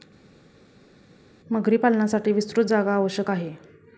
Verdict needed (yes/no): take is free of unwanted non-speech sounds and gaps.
yes